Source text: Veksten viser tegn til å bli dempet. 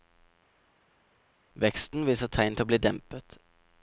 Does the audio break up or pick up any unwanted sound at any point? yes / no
no